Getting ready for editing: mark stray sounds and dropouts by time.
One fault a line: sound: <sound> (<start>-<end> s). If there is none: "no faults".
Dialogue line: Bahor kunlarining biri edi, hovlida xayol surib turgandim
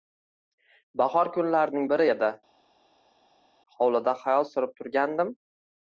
no faults